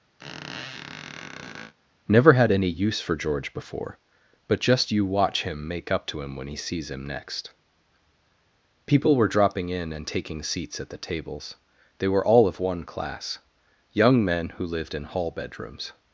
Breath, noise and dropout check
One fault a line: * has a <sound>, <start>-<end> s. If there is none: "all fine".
* has a squeak, 0.2-1.7 s